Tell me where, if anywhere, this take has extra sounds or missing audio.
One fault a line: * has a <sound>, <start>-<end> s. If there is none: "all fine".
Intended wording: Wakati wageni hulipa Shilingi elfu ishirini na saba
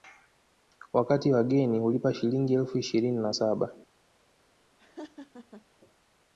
* has a laugh, 4.8-5.7 s